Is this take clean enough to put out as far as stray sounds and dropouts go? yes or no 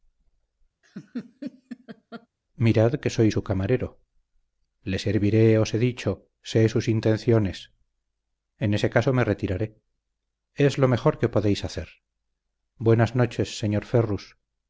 no